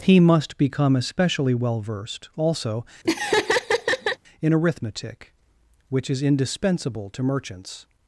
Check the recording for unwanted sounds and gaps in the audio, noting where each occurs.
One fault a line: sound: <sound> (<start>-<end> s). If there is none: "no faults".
sound: laugh (3.0-4.2 s)